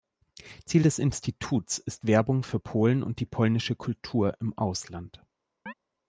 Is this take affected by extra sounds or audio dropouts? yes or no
yes